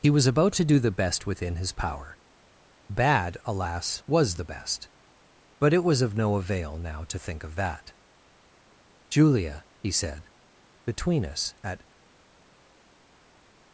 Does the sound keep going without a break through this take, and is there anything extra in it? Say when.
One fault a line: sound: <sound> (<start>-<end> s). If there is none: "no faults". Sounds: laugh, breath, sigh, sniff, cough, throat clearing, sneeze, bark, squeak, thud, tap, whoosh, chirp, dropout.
no faults